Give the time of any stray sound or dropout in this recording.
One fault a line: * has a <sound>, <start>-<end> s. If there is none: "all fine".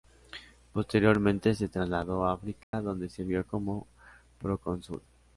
* has a dropout, 2.6-2.7 s